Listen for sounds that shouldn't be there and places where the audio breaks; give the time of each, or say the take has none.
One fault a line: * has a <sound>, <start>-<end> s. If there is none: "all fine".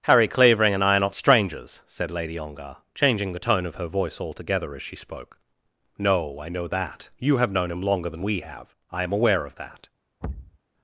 * has a thud, 10.2-10.6 s